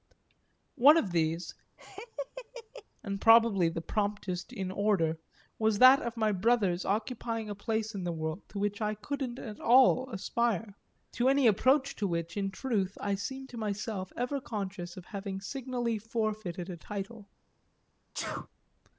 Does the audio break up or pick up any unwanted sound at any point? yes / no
yes